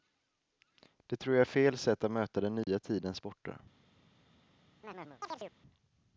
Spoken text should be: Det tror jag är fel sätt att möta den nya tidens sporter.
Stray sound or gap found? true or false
true